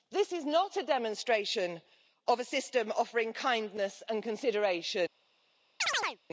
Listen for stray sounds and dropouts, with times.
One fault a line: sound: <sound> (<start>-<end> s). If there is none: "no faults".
sound: chirp (5.8-6.2 s)